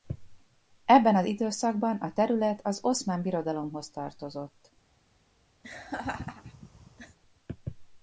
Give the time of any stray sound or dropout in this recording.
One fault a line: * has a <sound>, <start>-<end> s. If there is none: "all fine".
* has a laugh, 5.6-7.2 s